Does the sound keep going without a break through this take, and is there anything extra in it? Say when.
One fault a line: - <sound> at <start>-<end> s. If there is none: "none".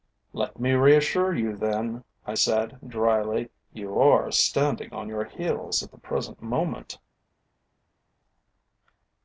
none